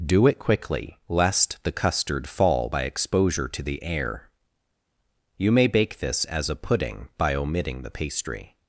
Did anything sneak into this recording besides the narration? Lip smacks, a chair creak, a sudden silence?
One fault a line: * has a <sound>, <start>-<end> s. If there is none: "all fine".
all fine